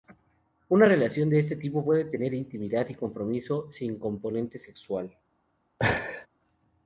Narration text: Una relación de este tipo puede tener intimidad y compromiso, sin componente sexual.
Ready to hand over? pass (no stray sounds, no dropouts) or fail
fail